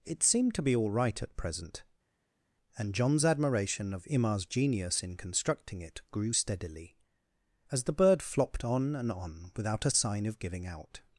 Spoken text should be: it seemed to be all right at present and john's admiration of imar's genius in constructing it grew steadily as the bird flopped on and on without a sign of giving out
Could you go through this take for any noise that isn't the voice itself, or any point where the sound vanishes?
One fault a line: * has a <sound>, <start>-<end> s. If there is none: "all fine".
all fine